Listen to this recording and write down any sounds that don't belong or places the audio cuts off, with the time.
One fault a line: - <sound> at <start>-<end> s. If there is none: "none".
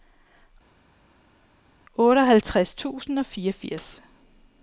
none